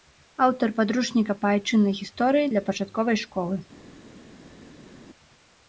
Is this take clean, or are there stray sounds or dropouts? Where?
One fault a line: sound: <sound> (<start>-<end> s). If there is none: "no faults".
no faults